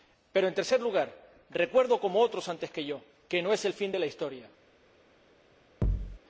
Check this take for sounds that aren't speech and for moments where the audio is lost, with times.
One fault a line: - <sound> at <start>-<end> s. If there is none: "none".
- thud at 5.8-6.2 s